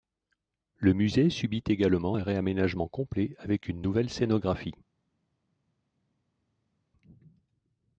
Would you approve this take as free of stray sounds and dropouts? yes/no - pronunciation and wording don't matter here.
yes